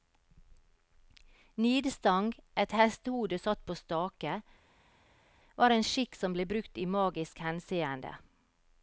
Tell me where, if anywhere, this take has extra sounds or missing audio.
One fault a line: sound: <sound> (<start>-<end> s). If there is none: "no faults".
no faults